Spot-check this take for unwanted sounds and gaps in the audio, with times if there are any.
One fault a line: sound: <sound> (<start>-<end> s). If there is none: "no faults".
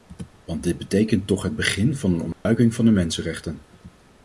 sound: dropout (2.3-2.5 s)